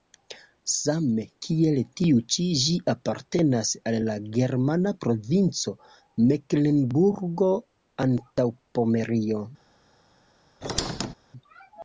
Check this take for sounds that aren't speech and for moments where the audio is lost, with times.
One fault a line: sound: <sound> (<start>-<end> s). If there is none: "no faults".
sound: squeak (10.6-11.1 s)